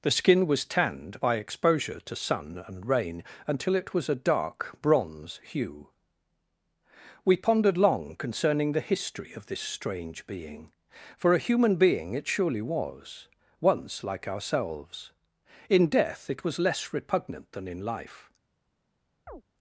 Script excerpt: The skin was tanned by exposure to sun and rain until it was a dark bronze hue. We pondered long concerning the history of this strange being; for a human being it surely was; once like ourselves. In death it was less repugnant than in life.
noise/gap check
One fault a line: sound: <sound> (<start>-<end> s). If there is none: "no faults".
sound: chirp (19.3-19.4 s)